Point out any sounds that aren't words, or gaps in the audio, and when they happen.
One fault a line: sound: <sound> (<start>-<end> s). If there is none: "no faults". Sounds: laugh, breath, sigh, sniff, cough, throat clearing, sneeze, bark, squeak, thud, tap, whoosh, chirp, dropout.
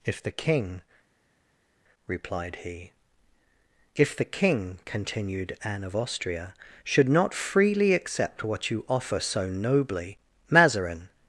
no faults